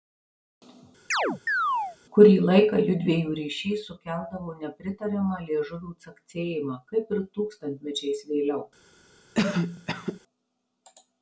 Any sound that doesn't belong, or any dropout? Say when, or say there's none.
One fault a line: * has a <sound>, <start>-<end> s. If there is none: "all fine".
* has a chirp, 1.1-2.0 s
* has a cough, 9.3-10.2 s